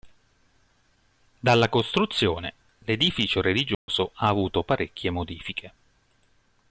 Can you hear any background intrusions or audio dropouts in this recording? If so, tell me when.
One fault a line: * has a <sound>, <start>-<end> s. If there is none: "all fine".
* has a dropout, 3.7-3.9 s